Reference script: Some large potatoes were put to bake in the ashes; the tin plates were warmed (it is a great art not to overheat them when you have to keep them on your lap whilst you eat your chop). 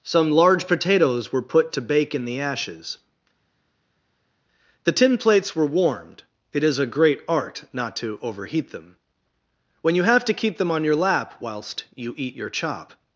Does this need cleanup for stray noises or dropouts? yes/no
no